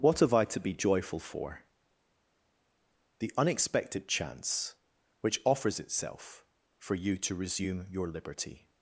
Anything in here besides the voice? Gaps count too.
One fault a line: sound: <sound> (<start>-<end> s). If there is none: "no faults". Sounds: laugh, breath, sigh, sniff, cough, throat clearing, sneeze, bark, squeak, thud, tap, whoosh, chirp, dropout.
no faults